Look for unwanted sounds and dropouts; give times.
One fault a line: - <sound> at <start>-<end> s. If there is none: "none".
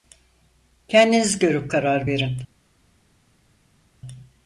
none